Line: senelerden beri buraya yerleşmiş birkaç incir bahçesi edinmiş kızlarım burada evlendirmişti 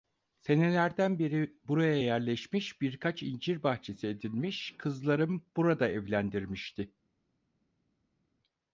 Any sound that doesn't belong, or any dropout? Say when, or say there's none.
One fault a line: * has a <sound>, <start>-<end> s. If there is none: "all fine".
all fine